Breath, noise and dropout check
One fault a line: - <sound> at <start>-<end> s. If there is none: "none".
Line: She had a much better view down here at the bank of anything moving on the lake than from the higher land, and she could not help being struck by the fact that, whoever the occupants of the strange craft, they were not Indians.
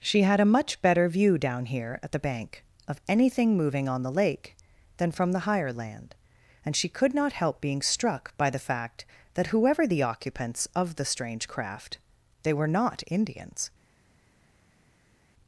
none